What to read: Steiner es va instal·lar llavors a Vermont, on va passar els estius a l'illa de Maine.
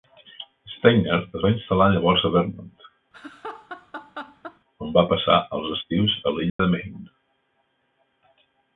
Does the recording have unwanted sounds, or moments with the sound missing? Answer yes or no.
yes